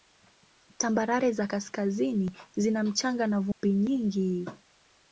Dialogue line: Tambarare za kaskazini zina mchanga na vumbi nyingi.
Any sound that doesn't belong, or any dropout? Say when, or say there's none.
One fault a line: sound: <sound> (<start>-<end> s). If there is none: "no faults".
sound: dropout (3.5-3.6 s)